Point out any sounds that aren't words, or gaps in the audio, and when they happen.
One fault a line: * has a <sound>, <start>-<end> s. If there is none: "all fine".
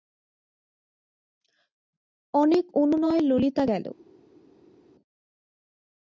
all fine